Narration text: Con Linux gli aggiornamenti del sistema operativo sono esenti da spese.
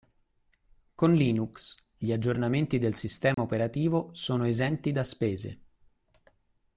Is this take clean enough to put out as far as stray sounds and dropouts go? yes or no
no